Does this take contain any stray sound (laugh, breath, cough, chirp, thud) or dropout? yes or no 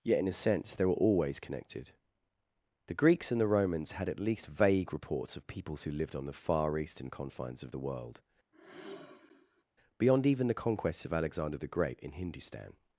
yes